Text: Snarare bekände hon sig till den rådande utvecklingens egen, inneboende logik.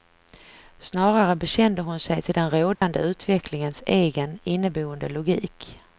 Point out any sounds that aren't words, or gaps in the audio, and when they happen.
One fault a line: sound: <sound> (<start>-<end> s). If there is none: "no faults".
sound: dropout (2.8-2.8 s)